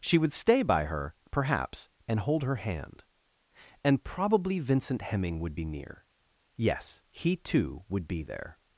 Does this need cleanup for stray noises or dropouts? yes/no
no